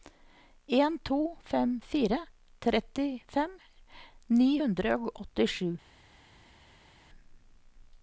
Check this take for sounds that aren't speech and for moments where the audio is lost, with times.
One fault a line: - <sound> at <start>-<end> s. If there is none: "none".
none